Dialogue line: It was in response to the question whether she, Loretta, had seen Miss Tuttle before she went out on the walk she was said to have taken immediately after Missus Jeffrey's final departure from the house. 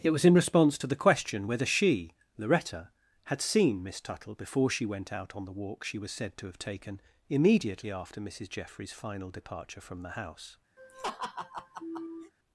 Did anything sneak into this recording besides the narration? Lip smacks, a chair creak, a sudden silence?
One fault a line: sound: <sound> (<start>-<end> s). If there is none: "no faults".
sound: laugh (10.8-12.3 s)